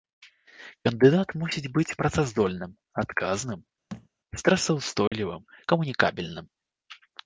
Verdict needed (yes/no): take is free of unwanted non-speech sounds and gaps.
no